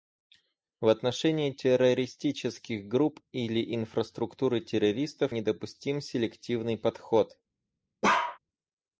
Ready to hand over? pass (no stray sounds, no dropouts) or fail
fail